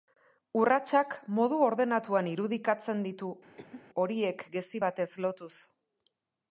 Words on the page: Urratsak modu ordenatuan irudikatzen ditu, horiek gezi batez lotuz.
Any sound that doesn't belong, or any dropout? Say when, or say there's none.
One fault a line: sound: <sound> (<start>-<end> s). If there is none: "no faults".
sound: cough (3.6-3.9 s)